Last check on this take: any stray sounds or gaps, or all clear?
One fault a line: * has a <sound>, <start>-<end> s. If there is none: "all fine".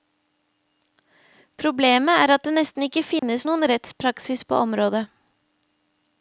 * has a dropout, 3.2-3.2 s